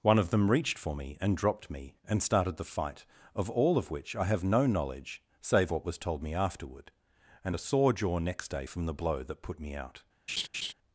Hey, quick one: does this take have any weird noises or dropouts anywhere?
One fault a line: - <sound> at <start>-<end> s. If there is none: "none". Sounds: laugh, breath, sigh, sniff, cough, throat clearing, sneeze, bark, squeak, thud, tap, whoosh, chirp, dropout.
- laugh at 10.3-10.7 s